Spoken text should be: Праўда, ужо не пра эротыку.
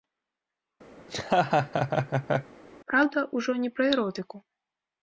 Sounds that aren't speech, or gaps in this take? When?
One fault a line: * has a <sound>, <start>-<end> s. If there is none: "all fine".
* has a laugh, 1.0-2.5 s